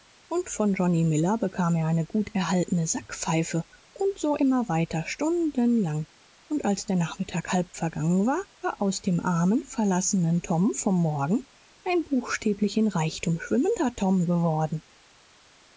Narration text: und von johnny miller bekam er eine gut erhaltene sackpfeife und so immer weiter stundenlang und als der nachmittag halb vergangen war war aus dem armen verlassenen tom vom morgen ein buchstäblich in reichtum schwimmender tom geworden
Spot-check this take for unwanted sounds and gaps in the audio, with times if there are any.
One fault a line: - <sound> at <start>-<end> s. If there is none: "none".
none